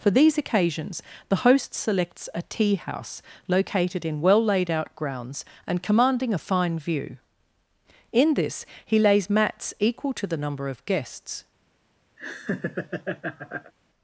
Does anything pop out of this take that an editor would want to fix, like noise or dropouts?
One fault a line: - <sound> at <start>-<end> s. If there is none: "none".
- laugh at 12.2-13.7 s